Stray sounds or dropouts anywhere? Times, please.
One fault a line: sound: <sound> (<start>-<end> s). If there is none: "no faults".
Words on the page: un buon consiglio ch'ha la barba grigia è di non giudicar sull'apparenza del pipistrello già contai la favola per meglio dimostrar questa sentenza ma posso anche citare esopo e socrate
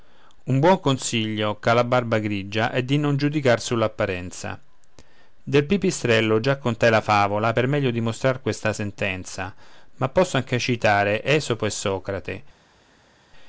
no faults